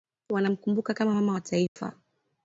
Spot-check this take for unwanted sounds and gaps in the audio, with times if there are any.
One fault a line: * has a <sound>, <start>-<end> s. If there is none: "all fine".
* has a dropout, 1.7-1.8 s